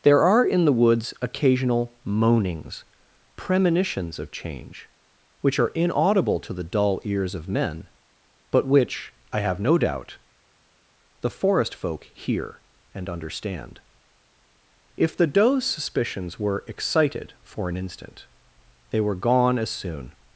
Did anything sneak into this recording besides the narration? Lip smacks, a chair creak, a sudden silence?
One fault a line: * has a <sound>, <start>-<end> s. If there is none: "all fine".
all fine